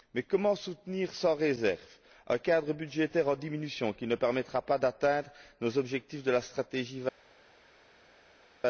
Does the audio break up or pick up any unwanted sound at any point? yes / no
no